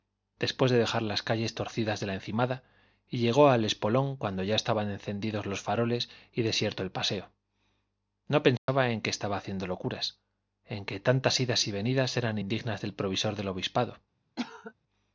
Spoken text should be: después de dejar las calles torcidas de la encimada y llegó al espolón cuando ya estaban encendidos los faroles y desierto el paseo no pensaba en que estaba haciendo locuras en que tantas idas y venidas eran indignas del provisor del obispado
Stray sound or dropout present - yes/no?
yes